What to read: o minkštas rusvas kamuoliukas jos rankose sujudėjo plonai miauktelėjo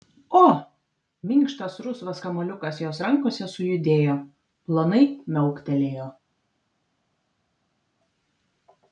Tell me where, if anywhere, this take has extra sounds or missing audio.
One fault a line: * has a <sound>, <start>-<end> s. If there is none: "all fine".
all fine